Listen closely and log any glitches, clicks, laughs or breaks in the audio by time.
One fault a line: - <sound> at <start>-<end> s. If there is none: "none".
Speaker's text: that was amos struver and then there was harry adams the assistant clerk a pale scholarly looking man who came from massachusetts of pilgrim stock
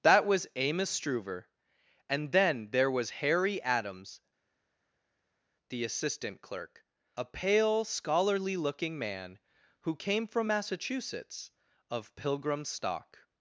none